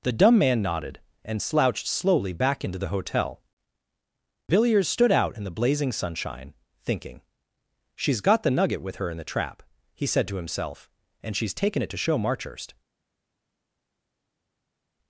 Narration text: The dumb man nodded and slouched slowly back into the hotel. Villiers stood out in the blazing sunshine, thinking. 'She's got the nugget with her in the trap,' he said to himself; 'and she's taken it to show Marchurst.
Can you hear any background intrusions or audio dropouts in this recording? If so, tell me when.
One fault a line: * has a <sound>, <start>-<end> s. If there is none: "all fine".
all fine